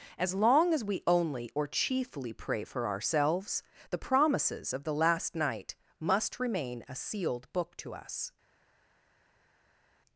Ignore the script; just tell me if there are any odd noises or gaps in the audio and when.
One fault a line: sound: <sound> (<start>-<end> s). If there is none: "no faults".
no faults